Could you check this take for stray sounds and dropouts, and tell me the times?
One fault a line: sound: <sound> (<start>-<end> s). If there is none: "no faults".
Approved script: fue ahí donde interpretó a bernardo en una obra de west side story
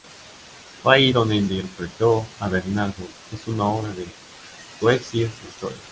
no faults